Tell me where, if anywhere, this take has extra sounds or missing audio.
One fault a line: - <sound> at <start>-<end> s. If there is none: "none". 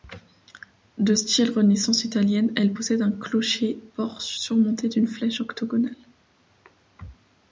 none